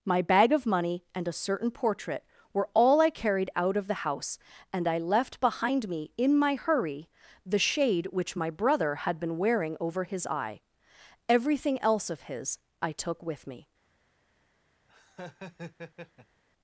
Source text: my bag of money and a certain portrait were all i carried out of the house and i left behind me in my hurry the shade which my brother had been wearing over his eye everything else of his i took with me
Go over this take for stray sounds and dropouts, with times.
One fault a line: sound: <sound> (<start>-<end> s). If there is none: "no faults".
sound: laugh (14.9-16.4 s)